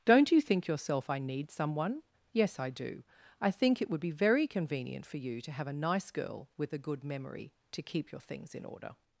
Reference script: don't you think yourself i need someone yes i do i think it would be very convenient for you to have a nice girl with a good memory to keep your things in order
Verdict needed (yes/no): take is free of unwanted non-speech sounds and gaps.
yes